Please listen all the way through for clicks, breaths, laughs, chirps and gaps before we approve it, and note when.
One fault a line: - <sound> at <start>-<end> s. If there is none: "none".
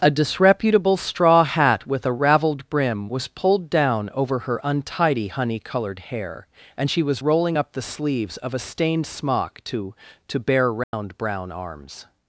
- dropout at 10.8-10.9 s